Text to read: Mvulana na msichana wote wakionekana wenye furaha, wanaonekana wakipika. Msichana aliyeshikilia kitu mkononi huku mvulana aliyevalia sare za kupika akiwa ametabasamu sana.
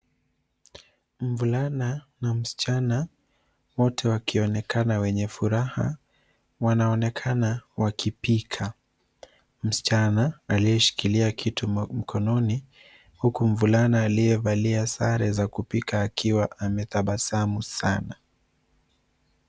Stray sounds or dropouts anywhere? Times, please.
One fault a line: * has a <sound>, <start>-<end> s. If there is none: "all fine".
all fine